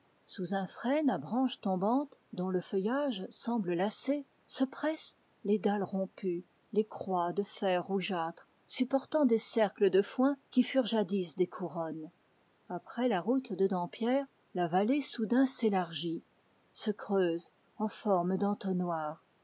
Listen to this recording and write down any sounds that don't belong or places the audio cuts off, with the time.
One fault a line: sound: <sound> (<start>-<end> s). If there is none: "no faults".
no faults